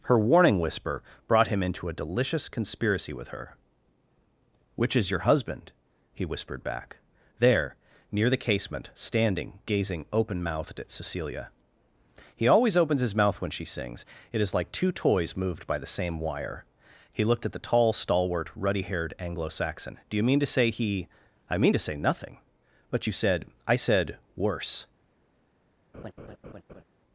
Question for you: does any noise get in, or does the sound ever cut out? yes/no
yes